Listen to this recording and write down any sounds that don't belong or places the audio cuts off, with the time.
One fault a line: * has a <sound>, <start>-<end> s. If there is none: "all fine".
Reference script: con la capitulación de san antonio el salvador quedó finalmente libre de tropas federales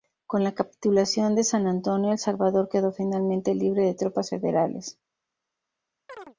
* has a chirp, 6.1-6.4 s